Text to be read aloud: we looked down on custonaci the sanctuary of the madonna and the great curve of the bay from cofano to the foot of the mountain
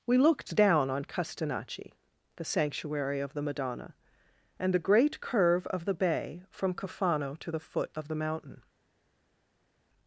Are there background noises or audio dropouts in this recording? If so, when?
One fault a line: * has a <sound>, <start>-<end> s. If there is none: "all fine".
all fine